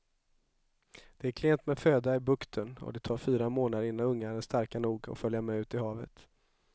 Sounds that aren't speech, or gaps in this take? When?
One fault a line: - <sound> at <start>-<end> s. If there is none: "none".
none